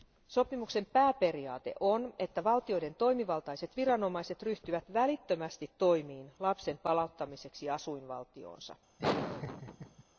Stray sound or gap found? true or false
true